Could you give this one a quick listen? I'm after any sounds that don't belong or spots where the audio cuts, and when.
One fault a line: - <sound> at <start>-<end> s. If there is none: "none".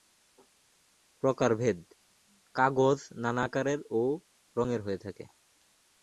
none